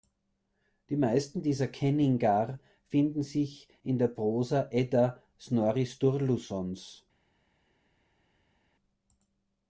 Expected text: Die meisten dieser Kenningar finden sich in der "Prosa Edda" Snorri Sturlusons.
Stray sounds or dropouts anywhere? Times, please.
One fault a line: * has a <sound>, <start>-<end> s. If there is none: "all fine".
all fine